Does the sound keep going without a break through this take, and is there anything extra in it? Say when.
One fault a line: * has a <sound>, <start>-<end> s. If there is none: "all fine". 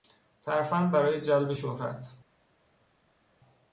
all fine